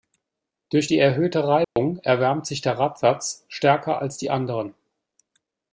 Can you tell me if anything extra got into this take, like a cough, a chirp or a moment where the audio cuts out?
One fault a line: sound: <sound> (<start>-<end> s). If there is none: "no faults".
sound: dropout (1.6-1.8 s)